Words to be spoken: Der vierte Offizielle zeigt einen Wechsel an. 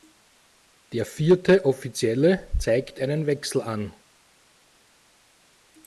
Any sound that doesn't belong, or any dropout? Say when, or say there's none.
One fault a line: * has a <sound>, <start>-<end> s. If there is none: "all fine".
all fine